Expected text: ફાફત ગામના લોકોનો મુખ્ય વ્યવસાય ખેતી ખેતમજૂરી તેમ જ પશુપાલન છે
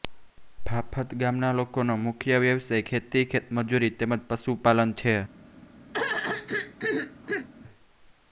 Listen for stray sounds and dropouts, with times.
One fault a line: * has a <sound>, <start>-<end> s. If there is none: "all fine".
* has a throat clearing, 5.9-7.5 s